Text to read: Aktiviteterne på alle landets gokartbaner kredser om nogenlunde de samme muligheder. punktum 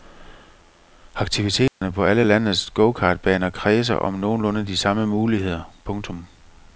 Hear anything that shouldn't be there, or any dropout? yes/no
yes